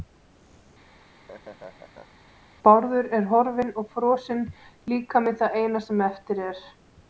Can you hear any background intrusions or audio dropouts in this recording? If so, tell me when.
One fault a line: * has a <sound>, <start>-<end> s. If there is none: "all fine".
* has a laugh, 0.9-2.2 s